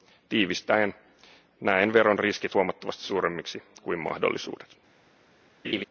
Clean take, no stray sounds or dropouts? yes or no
no